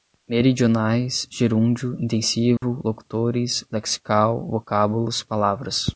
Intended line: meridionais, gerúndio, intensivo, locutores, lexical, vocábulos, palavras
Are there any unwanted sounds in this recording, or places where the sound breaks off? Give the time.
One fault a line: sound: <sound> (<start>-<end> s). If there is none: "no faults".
sound: dropout (2.6-2.6 s)